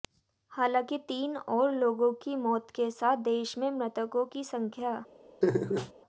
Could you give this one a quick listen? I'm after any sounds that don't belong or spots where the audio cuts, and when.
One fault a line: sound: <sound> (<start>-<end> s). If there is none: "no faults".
sound: laugh (5.4-5.9 s)